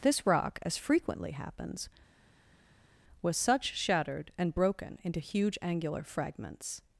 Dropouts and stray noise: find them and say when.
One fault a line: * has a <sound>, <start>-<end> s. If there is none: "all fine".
all fine